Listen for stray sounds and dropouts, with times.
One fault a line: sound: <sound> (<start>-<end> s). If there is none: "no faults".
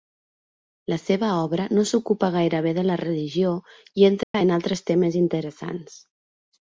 sound: dropout (4.2-4.3 s)